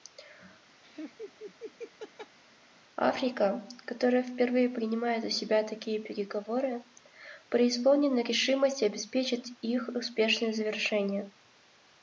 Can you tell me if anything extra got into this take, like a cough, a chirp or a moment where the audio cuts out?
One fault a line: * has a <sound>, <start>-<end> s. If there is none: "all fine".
* has a laugh, 0.8-2.4 s